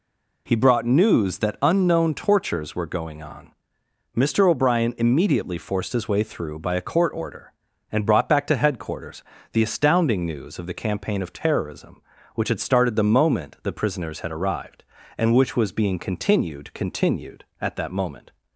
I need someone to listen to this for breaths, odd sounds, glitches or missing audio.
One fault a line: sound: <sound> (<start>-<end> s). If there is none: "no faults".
no faults